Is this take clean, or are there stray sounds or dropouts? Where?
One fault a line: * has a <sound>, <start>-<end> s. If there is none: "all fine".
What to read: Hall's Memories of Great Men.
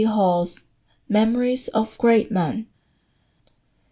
all fine